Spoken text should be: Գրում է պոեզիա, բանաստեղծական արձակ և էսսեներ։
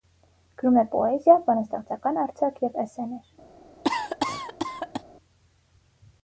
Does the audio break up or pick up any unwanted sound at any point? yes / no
yes